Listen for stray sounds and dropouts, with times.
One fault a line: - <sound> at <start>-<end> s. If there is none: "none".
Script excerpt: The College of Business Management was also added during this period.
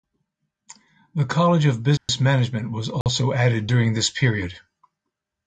- dropout at 2.0-2.1 s
- dropout at 3.0-3.1 s